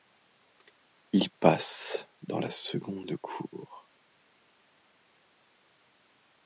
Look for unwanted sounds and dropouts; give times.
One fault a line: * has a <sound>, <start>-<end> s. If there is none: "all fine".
all fine